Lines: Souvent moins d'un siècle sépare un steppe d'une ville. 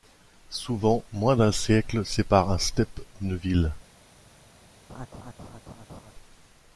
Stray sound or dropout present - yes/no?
yes